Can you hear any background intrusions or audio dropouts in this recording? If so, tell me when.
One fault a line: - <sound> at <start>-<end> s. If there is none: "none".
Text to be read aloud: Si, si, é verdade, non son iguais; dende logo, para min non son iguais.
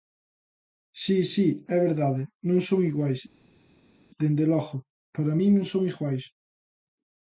none